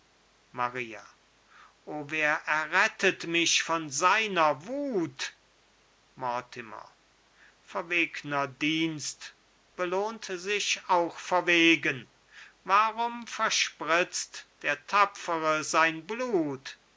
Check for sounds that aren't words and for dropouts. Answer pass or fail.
pass